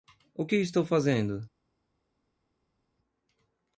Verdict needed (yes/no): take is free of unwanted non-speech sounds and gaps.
yes